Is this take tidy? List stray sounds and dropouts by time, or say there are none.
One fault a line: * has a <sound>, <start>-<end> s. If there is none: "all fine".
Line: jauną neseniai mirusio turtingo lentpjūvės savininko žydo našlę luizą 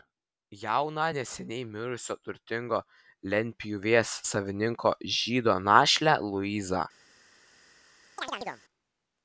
* has a chirp, 8.2-8.6 s